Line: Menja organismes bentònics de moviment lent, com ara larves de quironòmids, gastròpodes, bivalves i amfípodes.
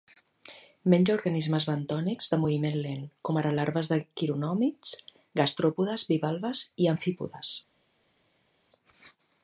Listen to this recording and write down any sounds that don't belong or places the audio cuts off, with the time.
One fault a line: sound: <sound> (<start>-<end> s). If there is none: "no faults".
no faults